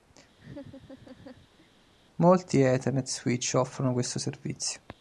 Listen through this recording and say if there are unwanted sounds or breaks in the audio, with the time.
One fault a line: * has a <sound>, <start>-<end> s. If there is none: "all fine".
* has a laugh, 0.4-1.7 s